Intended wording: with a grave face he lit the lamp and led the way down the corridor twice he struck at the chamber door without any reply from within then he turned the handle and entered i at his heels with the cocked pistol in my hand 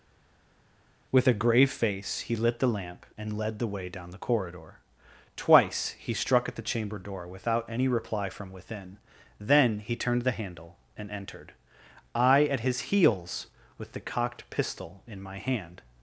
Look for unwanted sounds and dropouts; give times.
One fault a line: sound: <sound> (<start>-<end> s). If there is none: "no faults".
no faults